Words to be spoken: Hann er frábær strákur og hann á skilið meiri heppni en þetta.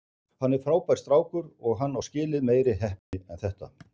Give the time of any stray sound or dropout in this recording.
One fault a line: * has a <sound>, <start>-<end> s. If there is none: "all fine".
* has a dropout, 3.0-3.1 s